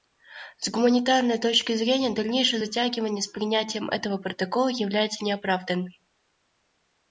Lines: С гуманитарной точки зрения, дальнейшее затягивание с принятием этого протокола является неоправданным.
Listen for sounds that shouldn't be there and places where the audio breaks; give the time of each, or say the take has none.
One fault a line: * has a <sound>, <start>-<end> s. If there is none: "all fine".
all fine